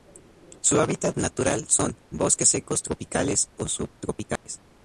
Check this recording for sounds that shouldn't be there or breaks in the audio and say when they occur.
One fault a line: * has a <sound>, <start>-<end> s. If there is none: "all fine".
* has a dropout, 4.4-4.5 s